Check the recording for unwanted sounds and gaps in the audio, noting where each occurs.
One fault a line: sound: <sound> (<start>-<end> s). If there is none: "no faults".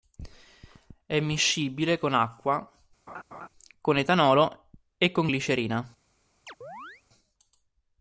sound: laugh (3.1-3.5 s)
sound: chirp (6.5-7.0 s)